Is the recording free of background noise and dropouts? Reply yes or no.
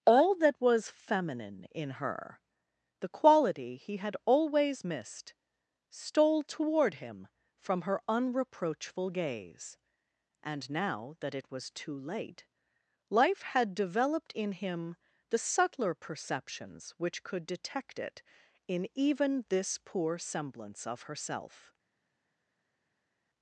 yes